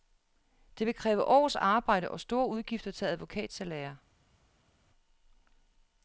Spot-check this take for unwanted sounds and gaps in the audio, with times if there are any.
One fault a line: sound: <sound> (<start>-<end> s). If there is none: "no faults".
no faults